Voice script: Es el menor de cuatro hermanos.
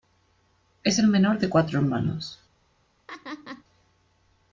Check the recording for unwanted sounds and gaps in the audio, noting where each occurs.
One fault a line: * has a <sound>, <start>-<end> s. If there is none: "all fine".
* has a laugh, 3.1-3.6 s